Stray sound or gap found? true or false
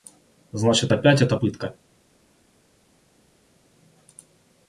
false